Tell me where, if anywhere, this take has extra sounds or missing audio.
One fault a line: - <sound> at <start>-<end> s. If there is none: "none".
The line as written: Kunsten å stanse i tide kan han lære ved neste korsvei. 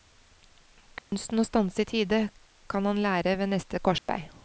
- dropout at 1.0-1.1 s
- dropout at 4.0-4.1 s